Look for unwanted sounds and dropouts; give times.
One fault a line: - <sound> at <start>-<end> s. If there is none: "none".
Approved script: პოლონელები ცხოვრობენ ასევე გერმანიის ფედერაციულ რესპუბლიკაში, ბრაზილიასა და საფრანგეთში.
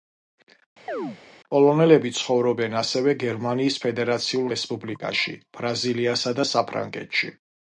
- chirp at 0.9-1.2 s